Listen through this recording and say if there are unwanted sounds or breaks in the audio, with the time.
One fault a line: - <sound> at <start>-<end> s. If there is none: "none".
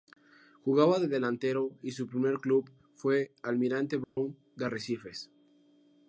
- dropout at 4.0-4.2 s